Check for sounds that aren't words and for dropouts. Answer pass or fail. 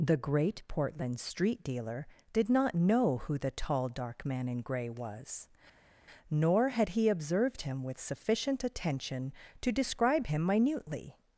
pass